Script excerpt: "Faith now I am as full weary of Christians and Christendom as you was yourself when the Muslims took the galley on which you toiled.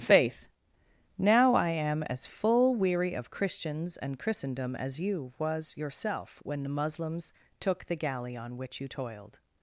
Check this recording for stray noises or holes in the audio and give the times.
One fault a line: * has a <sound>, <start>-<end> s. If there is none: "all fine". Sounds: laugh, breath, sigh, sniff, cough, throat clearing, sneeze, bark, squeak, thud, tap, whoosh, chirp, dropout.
all fine